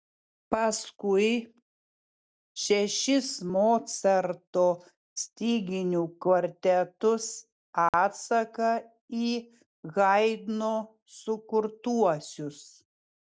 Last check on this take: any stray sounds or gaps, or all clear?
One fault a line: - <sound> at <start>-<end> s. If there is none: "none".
- dropout at 7.9-7.9 s